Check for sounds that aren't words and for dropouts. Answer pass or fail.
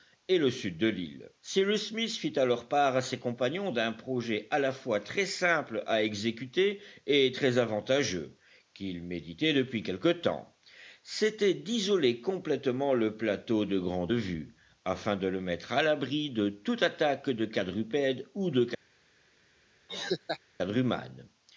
fail